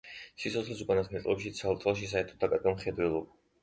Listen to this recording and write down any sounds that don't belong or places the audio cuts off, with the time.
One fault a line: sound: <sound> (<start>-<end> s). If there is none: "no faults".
no faults